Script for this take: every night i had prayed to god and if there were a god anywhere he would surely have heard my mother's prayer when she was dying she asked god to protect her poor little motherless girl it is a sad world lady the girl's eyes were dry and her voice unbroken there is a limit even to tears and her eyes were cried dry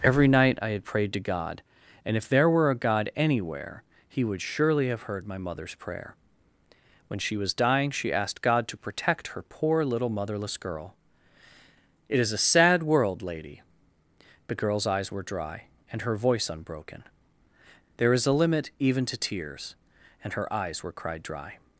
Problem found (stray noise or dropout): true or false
false